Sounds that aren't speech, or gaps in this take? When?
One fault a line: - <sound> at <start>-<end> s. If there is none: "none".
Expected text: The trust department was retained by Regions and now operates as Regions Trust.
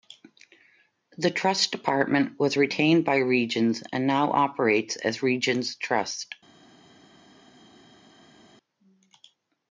none